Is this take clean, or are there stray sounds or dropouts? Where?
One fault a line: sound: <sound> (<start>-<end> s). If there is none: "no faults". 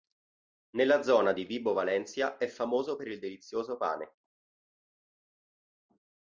no faults